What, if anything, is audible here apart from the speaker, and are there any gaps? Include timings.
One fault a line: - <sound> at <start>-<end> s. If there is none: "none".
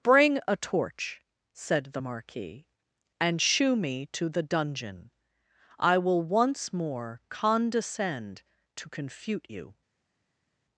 none